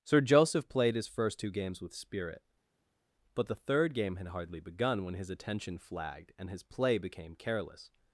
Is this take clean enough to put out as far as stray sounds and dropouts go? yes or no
yes